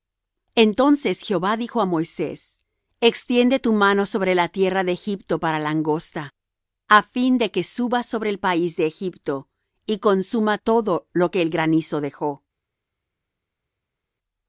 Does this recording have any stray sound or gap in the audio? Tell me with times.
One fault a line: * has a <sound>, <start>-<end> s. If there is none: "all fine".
all fine